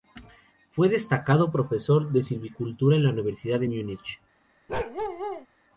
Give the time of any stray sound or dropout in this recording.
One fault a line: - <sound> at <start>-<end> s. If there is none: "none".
- bark at 4.7-5.5 s